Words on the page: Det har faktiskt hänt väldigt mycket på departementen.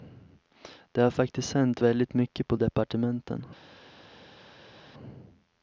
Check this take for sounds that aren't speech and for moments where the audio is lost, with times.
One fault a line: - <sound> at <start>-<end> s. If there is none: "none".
none